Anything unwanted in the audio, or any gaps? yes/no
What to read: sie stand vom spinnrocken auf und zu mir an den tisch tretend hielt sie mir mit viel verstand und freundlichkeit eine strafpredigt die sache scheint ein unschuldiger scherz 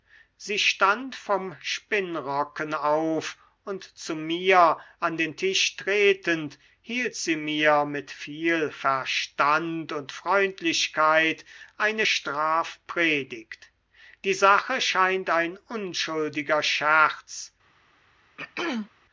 yes